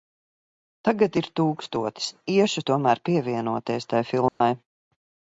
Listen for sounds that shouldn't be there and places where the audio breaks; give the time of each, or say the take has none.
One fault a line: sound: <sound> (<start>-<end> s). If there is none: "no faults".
sound: dropout (4.3-4.4 s)